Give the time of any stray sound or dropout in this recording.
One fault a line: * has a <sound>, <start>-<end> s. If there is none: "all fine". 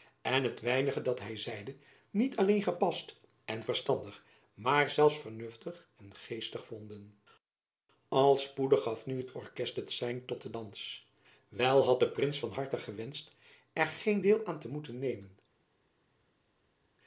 all fine